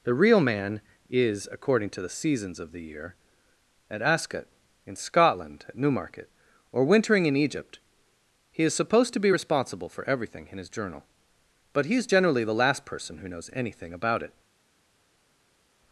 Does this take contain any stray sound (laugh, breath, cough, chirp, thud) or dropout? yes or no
no